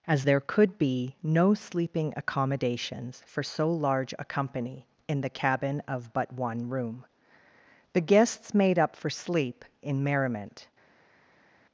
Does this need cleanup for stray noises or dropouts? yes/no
no